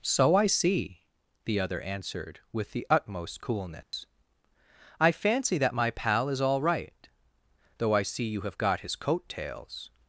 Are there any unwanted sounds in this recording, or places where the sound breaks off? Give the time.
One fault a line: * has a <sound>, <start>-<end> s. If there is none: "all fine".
* has a dropout, 3.8-3.9 s